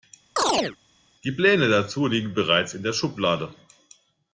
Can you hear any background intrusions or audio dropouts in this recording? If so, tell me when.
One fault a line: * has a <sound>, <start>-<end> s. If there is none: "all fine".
* has a chirp, 0.4-0.8 s